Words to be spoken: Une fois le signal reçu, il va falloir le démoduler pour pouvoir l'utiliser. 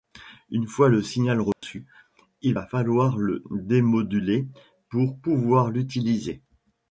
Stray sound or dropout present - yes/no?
yes